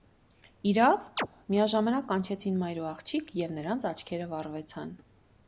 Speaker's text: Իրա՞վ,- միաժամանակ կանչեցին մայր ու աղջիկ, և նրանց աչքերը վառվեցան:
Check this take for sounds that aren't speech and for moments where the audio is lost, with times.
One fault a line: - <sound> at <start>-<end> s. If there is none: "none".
- chirp at 1.2-1.3 s